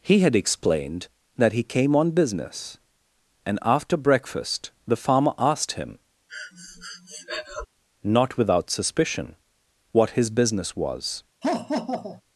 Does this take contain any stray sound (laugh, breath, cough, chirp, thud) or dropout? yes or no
yes